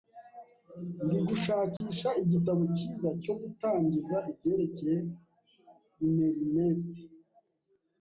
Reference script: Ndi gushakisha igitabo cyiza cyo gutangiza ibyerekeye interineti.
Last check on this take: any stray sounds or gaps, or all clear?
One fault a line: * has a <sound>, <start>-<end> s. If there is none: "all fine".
* has a dropout, 1.8-1.8 s